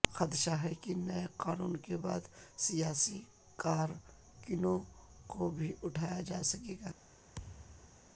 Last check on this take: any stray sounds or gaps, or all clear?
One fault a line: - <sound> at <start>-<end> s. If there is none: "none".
- thud at 7.3-8.0 s